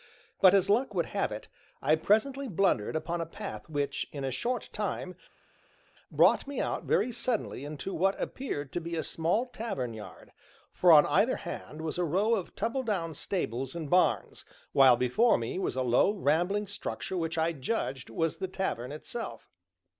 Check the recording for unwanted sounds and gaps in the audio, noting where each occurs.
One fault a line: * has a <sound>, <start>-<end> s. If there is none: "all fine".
all fine